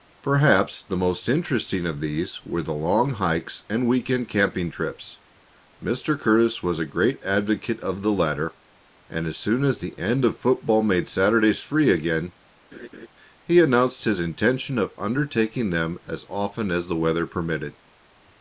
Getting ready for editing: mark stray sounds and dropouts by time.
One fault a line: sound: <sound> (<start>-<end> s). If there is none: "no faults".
sound: laugh (12.7-13.1 s)